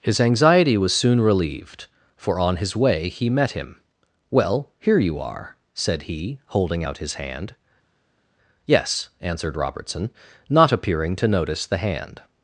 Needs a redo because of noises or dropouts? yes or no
no